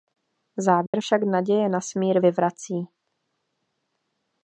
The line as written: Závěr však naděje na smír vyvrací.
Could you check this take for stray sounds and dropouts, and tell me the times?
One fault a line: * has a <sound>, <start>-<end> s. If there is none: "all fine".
* has a dropout, 0.9-0.9 s